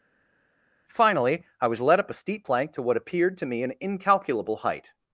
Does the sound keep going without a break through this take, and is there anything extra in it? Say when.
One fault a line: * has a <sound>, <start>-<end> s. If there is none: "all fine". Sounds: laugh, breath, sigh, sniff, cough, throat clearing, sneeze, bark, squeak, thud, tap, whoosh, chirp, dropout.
all fine